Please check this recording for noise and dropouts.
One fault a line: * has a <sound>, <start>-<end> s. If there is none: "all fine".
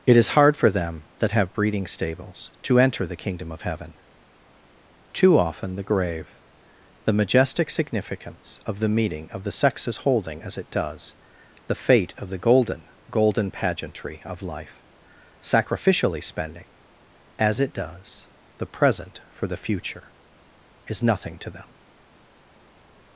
all fine